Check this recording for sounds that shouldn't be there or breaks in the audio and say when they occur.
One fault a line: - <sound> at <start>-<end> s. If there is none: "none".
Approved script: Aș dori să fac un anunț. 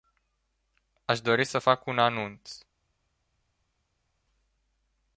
none